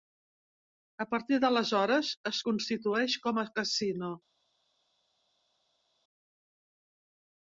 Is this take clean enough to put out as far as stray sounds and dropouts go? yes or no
yes